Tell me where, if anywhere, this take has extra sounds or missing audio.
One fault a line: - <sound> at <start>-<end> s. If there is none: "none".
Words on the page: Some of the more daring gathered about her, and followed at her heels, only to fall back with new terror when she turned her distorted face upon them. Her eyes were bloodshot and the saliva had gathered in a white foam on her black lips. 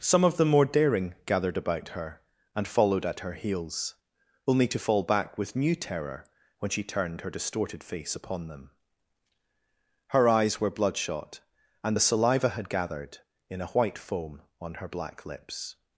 none